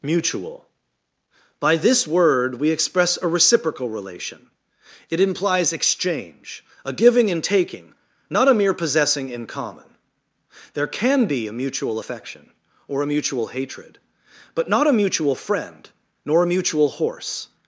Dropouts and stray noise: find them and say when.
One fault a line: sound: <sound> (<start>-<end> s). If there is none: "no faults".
no faults